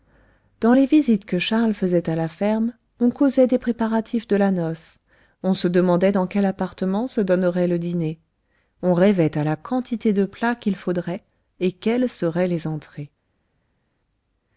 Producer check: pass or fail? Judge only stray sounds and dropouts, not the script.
pass